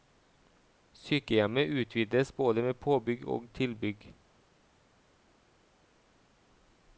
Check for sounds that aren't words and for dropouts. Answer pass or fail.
pass